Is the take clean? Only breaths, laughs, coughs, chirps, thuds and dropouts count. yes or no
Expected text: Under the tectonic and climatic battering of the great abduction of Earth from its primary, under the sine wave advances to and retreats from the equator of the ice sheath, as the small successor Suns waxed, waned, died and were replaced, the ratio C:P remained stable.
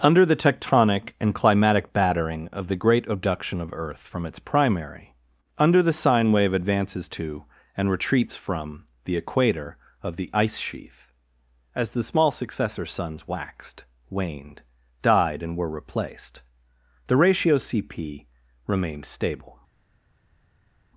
yes